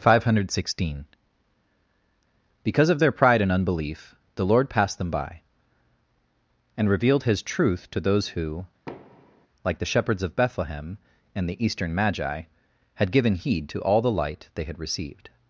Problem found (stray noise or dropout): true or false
true